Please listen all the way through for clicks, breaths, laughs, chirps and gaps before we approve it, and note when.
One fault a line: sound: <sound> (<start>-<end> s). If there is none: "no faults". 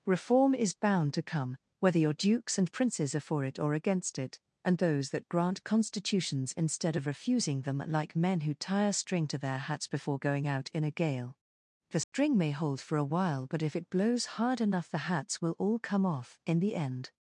sound: dropout (12.0-12.1 s)